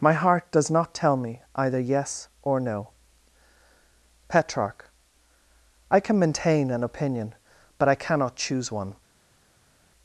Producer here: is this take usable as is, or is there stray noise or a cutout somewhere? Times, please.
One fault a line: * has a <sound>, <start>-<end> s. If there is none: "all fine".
all fine